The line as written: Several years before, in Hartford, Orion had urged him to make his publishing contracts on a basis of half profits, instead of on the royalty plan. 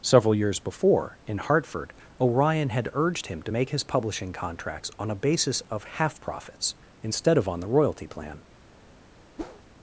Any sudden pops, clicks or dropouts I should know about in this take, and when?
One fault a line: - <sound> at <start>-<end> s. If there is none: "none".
- whoosh at 9.4-9.6 s